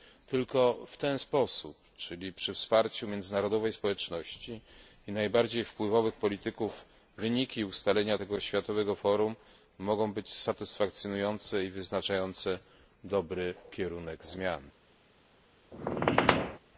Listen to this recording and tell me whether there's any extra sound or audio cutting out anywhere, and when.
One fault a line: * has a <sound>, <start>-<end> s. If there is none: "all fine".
* has a squeak, 15.7-16.6 s